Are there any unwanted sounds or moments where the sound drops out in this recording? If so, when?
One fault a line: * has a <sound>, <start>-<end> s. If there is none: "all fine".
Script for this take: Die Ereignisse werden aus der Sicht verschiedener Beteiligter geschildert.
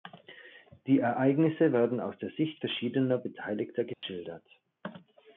* has a dropout, 3.9-4.0 s